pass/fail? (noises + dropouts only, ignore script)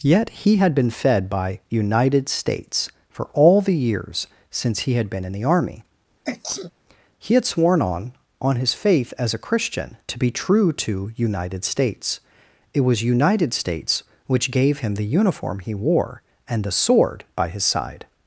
fail